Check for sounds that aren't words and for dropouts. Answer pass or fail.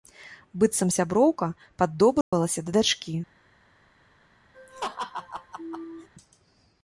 fail